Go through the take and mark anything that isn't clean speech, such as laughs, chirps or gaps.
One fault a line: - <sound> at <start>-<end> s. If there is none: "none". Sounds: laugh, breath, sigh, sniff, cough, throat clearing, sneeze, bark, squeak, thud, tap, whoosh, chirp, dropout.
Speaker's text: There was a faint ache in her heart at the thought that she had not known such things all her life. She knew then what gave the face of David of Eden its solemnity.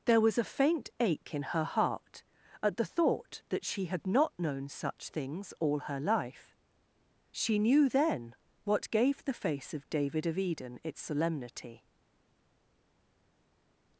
none